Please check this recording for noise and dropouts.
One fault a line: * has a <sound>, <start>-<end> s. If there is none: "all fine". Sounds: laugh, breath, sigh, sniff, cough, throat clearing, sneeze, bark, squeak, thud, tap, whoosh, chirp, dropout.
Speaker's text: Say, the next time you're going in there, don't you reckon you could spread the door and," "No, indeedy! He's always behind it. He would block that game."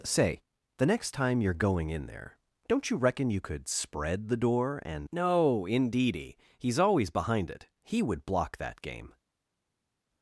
all fine